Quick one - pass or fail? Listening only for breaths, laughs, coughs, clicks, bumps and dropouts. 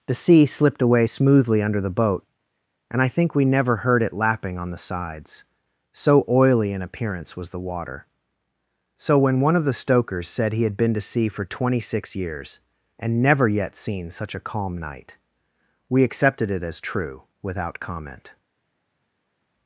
pass